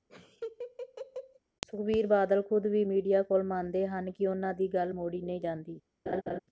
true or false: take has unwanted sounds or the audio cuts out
true